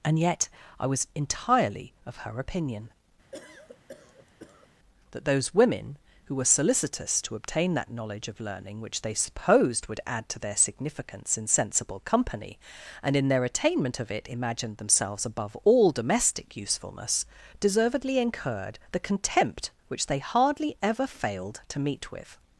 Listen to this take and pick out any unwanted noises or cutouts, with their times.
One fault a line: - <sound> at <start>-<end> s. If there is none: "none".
- cough at 3.3-4.7 s